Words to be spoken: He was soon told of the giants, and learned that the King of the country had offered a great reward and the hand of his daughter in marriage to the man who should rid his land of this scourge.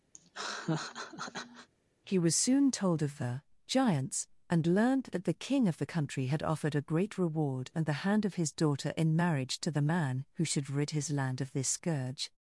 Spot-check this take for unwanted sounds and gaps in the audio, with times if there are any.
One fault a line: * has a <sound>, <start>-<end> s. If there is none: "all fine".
* has a laugh, 0.1-1.7 s